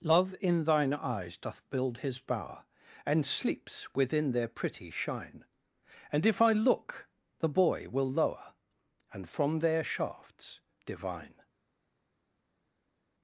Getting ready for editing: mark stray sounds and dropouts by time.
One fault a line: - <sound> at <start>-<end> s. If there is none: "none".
none